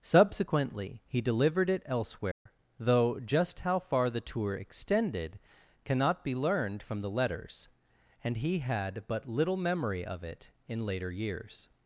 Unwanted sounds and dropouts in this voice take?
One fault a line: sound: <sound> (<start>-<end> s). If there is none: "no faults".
sound: dropout (2.3-2.5 s)